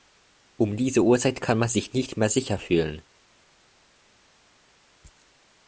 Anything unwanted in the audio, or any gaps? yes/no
no